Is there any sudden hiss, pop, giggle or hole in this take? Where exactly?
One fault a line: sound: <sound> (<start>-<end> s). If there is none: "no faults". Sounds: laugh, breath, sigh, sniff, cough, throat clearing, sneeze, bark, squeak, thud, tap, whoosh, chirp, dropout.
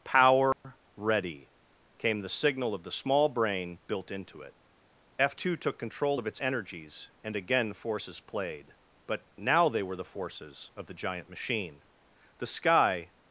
sound: dropout (0.5-0.6 s)